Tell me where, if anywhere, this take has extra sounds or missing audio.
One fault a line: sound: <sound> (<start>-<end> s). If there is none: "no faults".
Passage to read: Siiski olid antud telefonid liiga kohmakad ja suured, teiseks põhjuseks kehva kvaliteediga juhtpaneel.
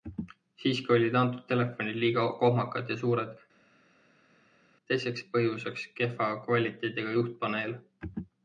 no faults